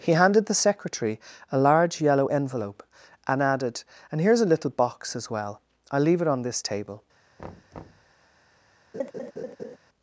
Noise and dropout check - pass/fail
fail